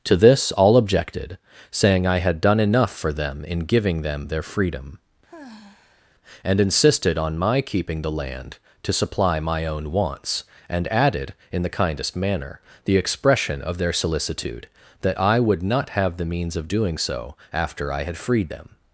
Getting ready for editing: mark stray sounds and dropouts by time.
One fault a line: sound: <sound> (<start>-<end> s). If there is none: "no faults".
sound: sigh (5.3-6.1 s)